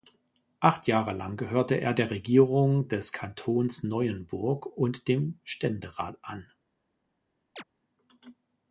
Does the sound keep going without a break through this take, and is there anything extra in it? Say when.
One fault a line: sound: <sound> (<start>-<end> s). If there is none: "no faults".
sound: chirp (7.6-7.6 s)